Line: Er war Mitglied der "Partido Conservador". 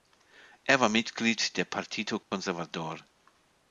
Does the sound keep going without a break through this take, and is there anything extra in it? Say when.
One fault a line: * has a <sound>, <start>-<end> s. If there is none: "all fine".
* has a dropout, 2.2-2.3 s